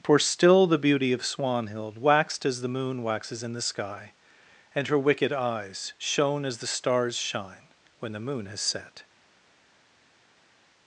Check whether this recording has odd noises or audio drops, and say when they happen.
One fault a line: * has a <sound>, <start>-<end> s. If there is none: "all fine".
all fine